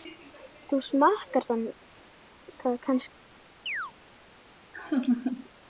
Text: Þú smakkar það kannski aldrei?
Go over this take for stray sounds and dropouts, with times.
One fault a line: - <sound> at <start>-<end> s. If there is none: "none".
- chirp at 3.7-3.9 s
- laugh at 4.7-5.5 s